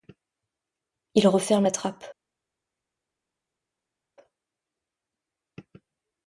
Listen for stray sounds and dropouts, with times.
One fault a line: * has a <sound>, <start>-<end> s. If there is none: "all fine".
all fine